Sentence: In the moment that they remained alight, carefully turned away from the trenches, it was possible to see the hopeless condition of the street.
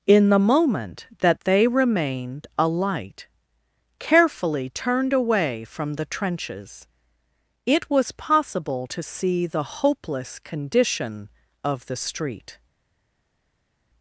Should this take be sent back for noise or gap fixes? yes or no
no